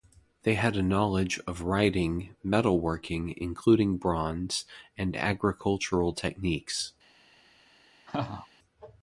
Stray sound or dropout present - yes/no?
yes